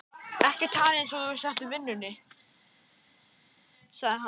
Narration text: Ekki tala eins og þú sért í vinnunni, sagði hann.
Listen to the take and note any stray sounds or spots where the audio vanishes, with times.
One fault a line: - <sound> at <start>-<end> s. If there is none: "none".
none